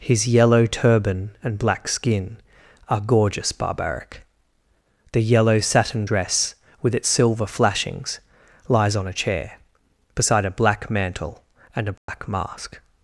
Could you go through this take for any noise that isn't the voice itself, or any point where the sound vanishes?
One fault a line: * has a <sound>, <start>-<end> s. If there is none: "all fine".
* has a dropout, 12.0-12.1 s